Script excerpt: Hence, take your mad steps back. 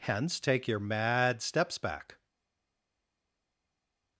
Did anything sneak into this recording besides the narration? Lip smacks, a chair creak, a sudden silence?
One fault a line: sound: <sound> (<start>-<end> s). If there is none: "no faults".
no faults